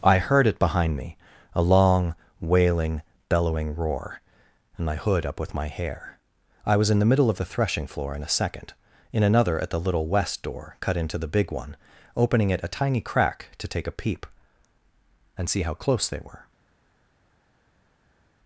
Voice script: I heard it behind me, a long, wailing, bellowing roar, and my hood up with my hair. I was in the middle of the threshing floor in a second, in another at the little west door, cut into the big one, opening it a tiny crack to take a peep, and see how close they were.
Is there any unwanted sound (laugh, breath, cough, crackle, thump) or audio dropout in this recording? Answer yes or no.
no